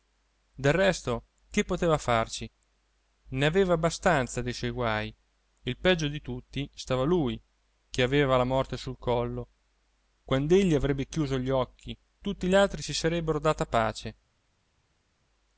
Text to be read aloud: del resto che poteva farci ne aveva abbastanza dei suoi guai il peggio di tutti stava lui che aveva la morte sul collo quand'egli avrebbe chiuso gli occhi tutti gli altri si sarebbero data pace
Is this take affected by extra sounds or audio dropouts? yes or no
no